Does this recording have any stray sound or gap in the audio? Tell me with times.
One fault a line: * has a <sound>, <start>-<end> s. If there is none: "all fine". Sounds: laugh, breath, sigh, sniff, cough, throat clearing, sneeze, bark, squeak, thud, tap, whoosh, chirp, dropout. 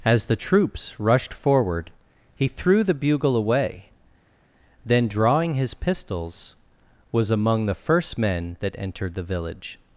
all fine